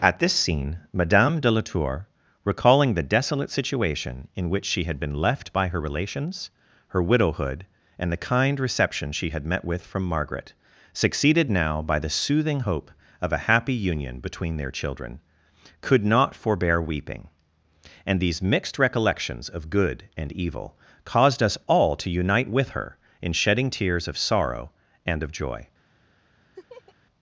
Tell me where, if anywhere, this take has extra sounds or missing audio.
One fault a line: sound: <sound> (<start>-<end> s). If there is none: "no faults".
sound: laugh (26.5-26.9 s)